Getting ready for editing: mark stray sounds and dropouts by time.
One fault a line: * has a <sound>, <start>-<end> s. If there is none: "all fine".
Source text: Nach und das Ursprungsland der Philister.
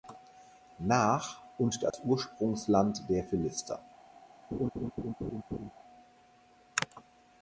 * has a dropout, 1.9-1.9 s
* has a laugh, 4.5-5.7 s